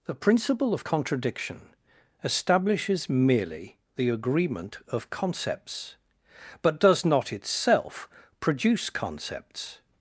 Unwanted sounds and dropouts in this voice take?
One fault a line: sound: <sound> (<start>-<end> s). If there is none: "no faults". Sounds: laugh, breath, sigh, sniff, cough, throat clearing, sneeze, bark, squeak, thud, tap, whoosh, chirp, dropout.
no faults